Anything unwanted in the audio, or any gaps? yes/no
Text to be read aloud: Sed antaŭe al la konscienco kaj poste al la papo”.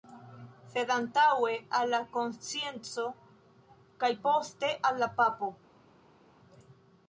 no